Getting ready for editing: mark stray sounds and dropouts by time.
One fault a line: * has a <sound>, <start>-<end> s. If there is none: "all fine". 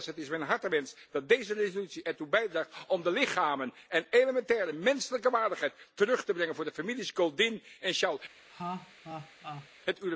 * has a laugh, 8.5-9.7 s